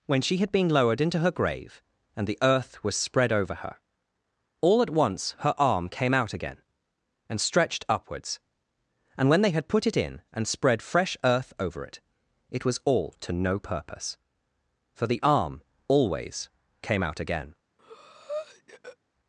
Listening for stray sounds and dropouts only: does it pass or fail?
fail